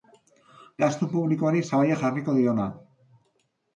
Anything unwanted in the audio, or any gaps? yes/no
no